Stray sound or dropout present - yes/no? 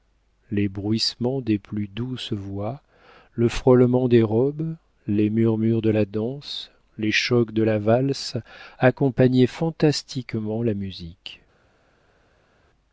no